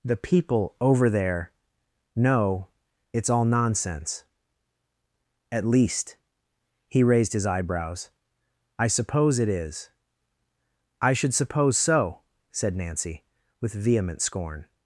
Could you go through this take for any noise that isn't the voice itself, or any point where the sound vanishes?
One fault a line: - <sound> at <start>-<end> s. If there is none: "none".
none